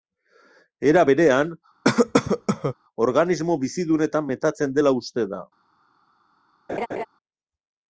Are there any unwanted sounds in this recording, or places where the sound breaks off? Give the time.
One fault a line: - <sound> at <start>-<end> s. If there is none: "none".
- cough at 1.8-2.7 s
- laugh at 6.7-7.1 s